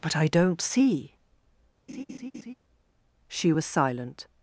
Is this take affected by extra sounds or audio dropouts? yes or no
yes